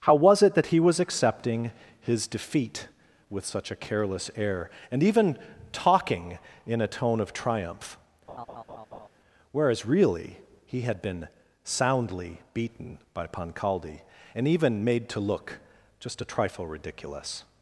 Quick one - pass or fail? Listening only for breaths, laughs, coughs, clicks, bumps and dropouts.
fail